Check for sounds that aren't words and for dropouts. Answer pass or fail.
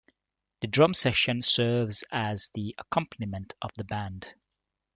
pass